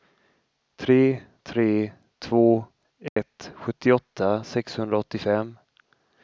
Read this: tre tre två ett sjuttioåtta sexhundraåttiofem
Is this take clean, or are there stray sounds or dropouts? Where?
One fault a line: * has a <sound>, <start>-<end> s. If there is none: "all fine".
* has a dropout, 3.1-3.2 s